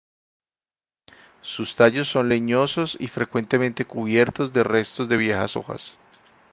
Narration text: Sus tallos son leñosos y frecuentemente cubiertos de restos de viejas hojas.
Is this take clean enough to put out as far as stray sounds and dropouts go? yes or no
yes